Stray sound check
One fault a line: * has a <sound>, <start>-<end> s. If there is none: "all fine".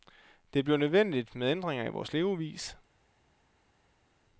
all fine